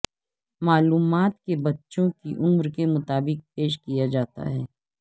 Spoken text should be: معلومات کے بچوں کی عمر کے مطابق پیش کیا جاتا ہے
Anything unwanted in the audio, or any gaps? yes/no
no